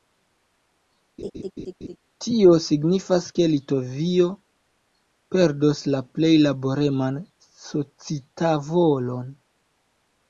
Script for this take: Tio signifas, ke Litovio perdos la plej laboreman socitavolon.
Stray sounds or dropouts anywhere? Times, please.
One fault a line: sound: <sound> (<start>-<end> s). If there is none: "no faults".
sound: laugh (1.2-2.0 s)